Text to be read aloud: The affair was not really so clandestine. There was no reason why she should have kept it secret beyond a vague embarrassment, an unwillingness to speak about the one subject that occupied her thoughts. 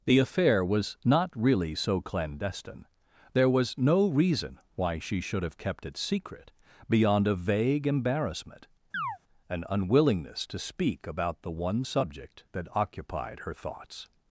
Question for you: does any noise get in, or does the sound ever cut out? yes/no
yes